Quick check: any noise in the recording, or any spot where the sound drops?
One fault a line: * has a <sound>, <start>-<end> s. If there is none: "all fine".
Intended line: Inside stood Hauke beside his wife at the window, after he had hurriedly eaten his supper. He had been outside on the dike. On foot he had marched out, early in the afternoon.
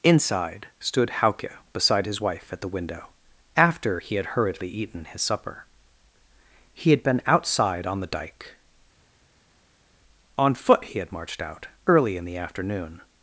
all fine